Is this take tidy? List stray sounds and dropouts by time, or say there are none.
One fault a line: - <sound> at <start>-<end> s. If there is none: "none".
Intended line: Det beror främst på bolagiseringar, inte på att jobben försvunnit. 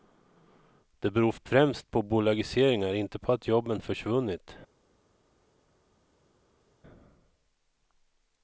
none